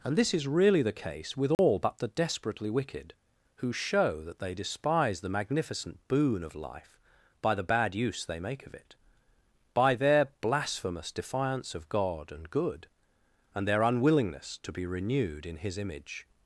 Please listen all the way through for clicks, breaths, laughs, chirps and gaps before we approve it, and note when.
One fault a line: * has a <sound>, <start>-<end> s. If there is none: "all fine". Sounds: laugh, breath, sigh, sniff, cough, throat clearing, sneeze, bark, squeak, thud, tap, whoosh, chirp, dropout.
* has a dropout, 1.5-1.6 s